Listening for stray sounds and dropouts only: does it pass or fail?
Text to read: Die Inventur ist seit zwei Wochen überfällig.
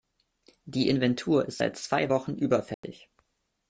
fail